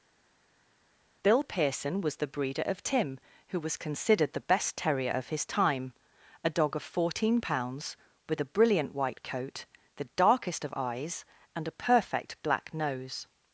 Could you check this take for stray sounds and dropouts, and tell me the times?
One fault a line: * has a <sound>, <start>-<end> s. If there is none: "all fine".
all fine